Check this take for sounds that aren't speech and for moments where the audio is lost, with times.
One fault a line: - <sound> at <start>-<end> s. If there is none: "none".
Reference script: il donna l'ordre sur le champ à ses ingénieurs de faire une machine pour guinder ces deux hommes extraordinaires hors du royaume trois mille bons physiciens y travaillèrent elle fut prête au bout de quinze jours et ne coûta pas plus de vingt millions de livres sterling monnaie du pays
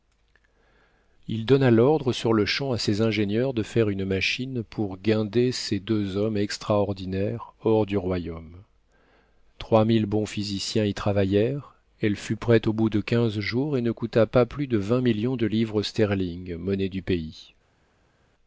none